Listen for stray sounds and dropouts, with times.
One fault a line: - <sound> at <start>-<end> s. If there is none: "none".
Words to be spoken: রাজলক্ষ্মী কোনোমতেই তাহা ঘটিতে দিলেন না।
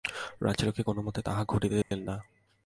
- dropout at 1.8-1.9 s